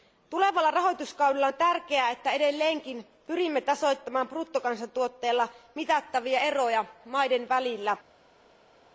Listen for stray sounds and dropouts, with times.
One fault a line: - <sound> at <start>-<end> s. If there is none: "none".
none